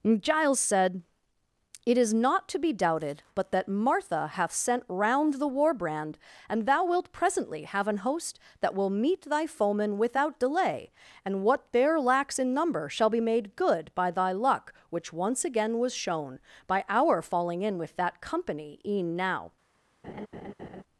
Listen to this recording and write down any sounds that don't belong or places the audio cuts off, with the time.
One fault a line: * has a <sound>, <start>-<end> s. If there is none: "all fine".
* has a laugh, 20.0-20.8 s